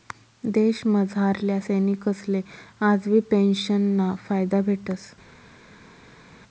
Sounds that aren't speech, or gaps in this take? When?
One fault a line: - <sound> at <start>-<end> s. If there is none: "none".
none